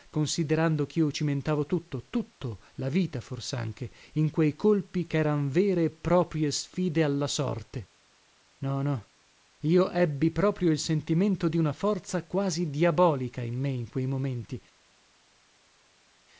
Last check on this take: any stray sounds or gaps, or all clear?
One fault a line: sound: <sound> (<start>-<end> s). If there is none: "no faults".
no faults